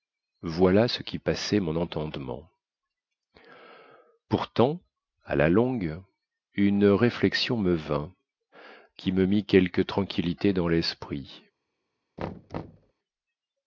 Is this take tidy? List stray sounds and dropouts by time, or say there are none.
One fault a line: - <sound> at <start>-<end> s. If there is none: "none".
- thud at 12.2-12.9 s